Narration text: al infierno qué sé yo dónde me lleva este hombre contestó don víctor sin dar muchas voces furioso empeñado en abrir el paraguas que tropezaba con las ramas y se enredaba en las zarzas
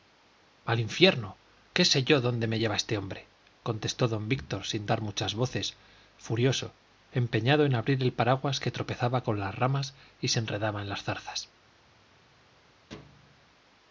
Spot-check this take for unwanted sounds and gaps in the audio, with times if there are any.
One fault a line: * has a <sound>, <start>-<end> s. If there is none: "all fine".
* has a thud, 12.9-13.5 s